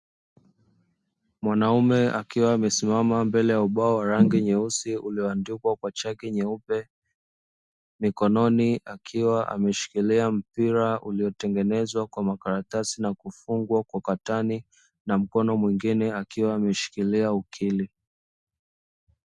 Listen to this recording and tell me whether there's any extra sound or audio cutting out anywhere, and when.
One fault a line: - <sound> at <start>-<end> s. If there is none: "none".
none